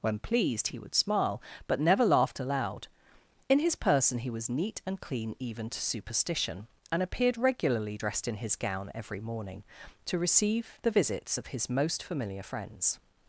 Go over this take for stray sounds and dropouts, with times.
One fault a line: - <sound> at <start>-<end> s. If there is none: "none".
none